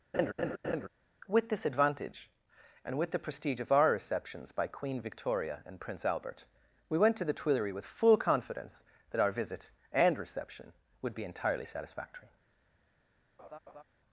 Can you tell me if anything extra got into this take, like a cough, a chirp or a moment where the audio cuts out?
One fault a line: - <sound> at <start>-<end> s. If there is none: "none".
- laugh at 0.1-0.9 s
- laugh at 13.4-13.8 s